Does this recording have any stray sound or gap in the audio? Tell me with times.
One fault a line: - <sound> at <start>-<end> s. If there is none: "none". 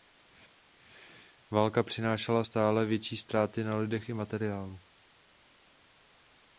none